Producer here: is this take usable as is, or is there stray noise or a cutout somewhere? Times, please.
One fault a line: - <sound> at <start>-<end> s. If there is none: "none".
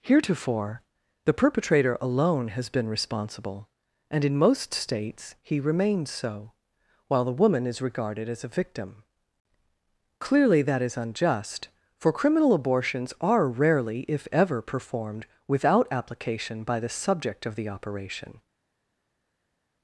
none